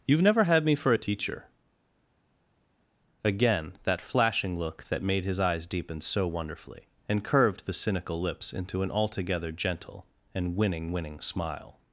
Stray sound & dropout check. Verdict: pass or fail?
pass